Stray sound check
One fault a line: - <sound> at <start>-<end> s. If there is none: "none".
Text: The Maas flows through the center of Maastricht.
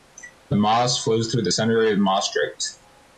none